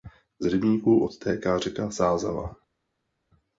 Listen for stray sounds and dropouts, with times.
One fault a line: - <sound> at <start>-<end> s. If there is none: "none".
none